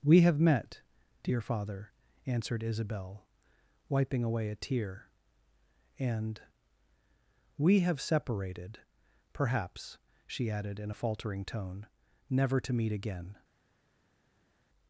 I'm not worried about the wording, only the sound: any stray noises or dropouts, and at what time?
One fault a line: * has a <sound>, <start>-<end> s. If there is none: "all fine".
all fine